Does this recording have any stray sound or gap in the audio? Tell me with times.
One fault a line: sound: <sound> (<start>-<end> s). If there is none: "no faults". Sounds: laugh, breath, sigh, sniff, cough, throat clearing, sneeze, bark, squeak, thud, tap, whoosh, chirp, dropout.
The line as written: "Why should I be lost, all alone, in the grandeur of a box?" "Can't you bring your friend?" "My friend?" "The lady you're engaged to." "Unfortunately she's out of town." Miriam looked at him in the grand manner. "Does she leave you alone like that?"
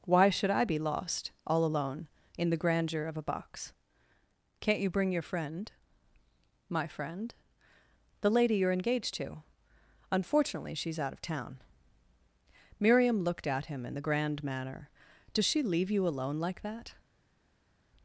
no faults